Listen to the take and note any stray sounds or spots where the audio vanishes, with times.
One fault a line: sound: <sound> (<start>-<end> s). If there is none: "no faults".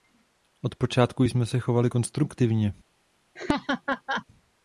sound: laugh (3.4-4.3 s)